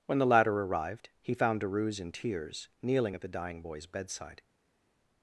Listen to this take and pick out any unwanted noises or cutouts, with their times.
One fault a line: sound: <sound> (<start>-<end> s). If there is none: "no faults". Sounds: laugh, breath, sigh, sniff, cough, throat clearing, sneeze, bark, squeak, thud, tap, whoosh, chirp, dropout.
no faults